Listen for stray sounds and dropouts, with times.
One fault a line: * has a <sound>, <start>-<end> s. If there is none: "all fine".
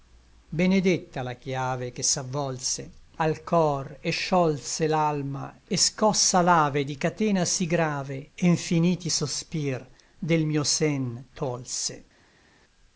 all fine